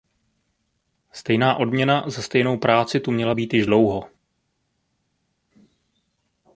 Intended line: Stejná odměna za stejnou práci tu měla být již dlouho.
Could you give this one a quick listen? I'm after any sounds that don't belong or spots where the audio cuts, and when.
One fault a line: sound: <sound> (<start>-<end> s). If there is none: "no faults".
no faults